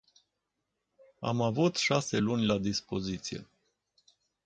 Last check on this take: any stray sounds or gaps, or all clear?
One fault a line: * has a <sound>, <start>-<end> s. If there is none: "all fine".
all fine